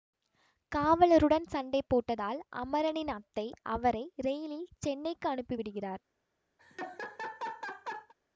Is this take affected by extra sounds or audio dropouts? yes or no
yes